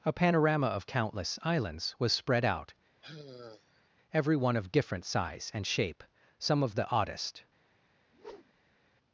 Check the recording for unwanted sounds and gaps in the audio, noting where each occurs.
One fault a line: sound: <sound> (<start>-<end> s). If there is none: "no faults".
sound: sigh (3.0-3.9 s)
sound: whoosh (8.1-8.8 s)